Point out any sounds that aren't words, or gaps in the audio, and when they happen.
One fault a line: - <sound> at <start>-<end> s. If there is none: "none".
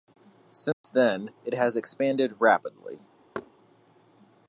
- dropout at 0.7-0.8 s
- thud at 3.3-3.5 s